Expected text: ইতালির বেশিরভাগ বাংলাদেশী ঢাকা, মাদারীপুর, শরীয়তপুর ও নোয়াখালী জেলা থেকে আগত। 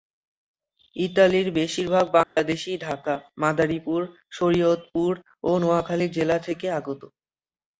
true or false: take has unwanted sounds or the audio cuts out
true